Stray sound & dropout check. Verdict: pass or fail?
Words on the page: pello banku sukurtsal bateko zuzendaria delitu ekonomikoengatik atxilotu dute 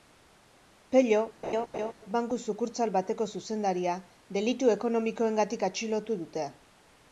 fail